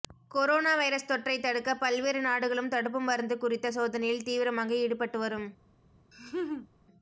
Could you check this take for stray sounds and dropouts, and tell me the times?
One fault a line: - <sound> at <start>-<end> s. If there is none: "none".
- laugh at 6.1-6.7 s